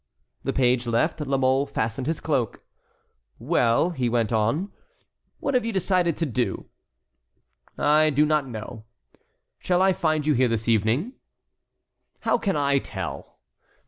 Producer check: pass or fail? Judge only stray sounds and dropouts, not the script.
pass